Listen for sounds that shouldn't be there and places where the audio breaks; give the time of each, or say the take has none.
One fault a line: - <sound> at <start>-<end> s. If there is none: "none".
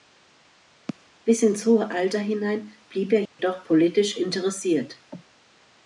- dropout at 3.3-3.4 s